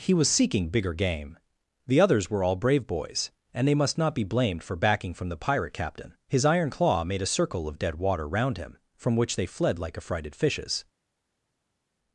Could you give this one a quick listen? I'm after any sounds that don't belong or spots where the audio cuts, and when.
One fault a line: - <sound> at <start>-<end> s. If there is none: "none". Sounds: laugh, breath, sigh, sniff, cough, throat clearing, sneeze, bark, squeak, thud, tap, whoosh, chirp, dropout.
none